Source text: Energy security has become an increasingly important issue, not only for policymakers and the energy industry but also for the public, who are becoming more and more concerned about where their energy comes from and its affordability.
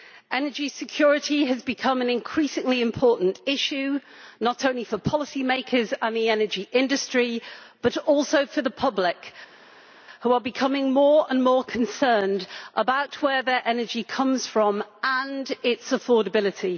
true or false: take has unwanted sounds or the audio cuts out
false